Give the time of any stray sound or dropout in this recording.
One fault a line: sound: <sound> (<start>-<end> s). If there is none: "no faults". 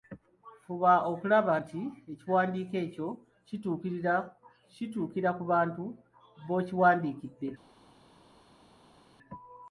no faults